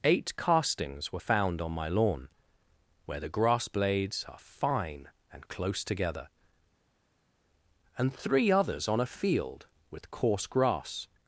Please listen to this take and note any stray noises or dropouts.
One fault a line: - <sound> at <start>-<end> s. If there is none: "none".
none